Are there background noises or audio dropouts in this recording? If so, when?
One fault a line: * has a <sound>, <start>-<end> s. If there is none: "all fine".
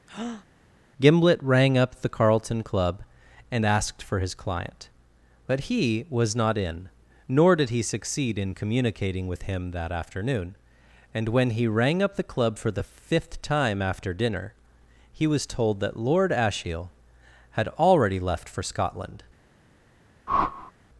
* has a breath, 0.1-0.5 s
* has a whoosh, 20.3-20.7 s